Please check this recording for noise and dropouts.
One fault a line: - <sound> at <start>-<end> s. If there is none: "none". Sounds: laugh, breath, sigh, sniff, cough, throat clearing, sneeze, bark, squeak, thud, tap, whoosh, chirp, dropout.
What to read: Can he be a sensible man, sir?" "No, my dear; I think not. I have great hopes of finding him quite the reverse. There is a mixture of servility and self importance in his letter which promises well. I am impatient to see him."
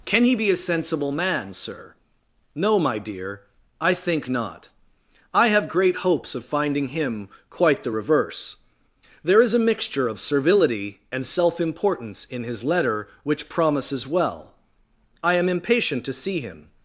none